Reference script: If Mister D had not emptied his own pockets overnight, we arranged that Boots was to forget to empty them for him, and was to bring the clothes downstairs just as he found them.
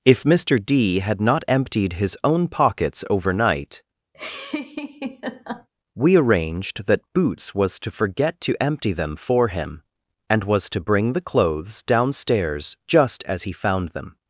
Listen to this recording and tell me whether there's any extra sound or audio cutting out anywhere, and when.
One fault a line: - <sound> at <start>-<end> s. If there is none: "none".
- laugh at 4.1-5.7 s